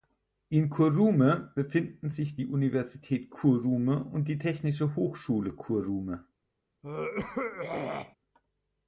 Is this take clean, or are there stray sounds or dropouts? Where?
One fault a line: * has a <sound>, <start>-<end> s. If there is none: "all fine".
* has a throat clearing, 6.8-8.2 s